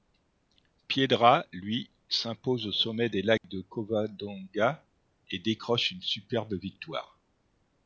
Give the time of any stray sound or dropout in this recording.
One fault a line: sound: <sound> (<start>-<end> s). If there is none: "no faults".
sound: dropout (3.4-3.4 s)